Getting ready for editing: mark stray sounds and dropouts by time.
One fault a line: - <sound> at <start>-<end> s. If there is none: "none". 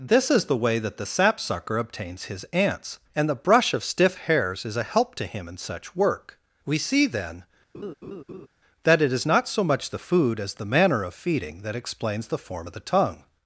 - laugh at 7.7-8.5 s